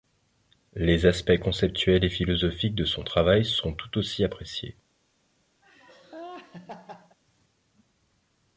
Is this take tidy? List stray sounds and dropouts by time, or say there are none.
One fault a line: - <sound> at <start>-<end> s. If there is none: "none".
- laugh at 5.6-7.2 s